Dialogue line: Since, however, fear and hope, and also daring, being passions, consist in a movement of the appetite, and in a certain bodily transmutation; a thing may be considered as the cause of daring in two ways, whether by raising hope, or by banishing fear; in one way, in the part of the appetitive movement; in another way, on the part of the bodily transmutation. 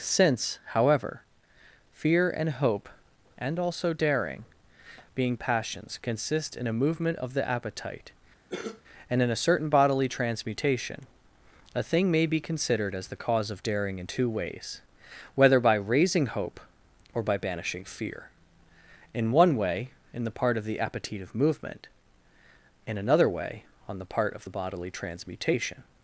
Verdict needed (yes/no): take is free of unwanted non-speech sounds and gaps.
no